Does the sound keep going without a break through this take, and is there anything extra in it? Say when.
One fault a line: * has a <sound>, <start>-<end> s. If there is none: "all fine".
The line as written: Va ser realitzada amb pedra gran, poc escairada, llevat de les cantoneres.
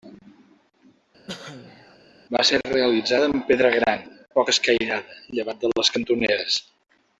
* has a cough, 1.3-2.0 s